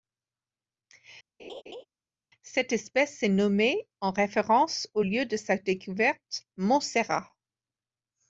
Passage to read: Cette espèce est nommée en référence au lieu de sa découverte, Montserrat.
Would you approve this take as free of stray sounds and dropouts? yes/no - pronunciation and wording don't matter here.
no